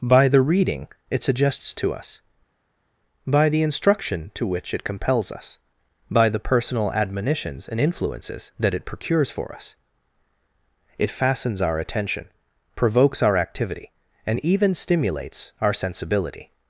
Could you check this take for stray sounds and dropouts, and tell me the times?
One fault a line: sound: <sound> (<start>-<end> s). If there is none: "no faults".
no faults